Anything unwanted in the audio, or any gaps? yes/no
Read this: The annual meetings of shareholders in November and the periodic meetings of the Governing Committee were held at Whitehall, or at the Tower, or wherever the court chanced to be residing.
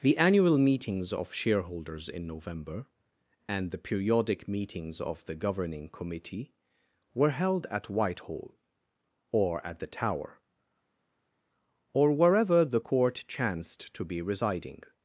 no